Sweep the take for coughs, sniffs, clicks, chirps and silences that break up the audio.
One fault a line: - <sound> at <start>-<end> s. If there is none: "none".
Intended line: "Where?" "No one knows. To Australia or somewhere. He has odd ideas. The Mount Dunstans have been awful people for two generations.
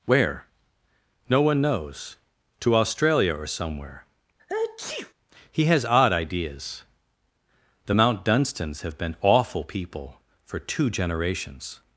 - sneeze at 4.4-5.1 s